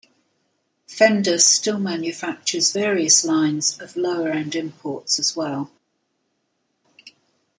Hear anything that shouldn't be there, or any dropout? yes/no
no